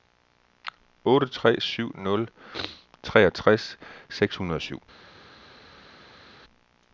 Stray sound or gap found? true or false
false